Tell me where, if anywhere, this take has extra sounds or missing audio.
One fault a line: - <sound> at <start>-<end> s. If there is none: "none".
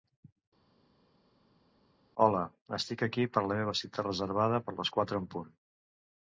none